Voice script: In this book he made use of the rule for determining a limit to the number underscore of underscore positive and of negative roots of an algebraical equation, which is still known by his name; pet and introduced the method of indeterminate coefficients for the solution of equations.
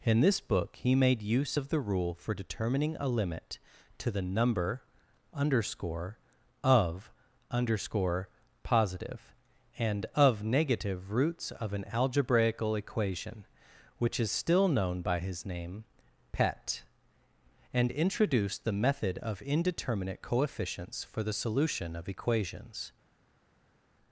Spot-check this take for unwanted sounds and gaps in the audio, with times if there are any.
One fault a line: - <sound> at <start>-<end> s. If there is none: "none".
none